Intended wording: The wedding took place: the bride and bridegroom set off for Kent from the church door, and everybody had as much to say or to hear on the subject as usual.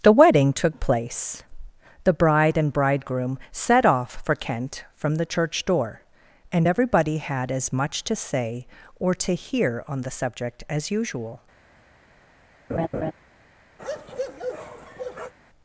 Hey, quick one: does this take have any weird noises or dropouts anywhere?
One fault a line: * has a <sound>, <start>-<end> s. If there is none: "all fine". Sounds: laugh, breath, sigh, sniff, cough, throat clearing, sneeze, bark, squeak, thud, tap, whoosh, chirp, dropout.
* has a laugh, 12.7-13.1 s
* has a bark, 13.8-15.3 s